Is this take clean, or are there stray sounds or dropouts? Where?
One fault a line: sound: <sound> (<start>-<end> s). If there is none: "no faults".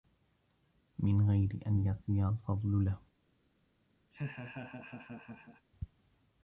sound: laugh (4.1-5.7 s)